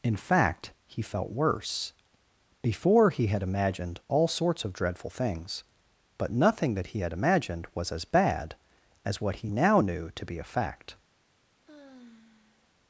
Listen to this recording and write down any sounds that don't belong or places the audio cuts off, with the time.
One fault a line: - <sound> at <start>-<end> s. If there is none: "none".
- sigh at 11.6-12.7 s